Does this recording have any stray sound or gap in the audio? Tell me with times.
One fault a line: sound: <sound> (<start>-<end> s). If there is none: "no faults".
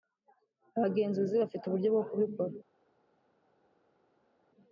no faults